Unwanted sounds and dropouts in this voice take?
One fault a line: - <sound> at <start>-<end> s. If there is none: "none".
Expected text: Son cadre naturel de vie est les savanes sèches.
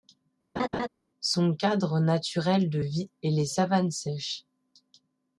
- laugh at 0.6-0.9 s